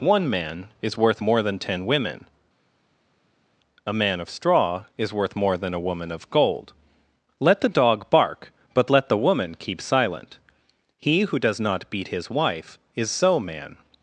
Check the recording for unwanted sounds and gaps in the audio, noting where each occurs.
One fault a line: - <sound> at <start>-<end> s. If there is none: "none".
none